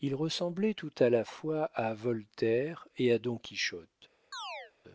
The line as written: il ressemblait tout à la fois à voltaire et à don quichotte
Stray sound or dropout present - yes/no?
yes